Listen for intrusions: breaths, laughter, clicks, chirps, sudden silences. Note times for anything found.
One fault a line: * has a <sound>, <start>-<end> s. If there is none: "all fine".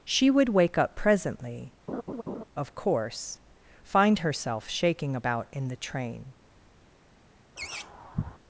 * has a laugh, 1.9-2.4 s
* has a laugh, 7.6-8.4 s